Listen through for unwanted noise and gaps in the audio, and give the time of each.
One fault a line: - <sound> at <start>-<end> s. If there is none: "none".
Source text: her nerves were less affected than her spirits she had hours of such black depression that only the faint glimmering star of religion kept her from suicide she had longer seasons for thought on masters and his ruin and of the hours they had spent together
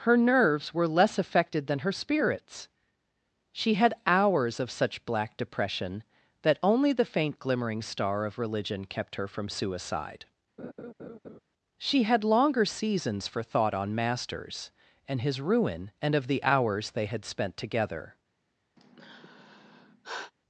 - laugh at 10.6-11.4 s
- sigh at 18.8-20.3 s